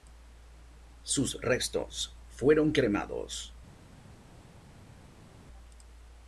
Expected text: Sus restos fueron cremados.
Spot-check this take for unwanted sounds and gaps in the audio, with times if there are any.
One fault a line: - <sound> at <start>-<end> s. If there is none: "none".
none